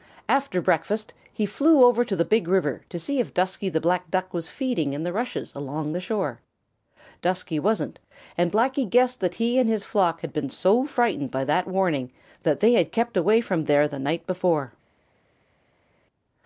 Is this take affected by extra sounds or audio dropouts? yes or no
no